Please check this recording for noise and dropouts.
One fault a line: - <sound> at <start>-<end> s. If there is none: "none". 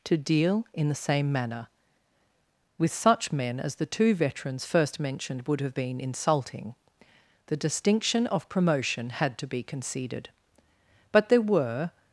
none